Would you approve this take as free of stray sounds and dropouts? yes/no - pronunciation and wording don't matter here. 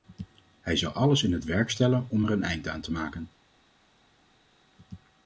yes